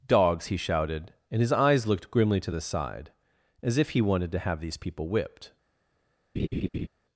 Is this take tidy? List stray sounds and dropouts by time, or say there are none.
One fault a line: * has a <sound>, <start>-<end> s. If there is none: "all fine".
* has a laugh, 6.4-6.9 s